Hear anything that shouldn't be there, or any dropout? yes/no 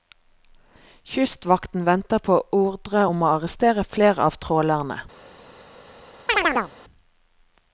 yes